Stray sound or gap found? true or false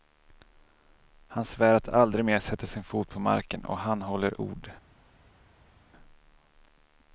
false